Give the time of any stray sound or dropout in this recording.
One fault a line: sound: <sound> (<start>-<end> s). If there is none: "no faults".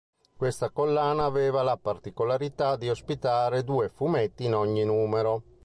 no faults